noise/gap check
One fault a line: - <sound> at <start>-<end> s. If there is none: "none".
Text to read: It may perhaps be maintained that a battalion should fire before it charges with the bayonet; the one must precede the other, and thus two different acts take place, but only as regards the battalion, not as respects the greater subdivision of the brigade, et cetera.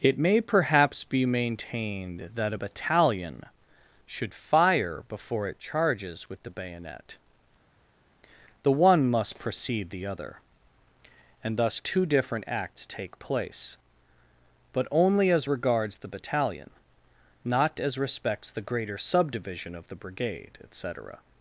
none